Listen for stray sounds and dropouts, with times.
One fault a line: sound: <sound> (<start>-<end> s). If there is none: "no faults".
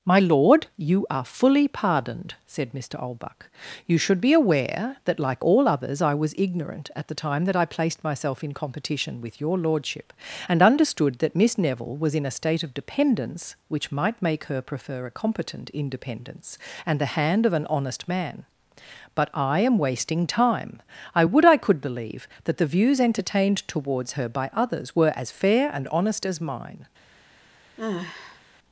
sound: sigh (27.8-28.4 s)